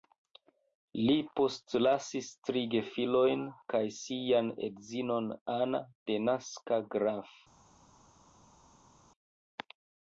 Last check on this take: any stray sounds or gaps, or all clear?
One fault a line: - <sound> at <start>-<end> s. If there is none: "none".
none